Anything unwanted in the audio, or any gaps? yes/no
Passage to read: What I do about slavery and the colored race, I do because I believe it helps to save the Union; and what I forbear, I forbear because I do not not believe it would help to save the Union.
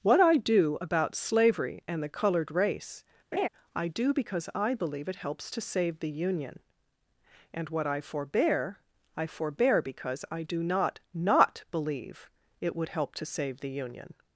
yes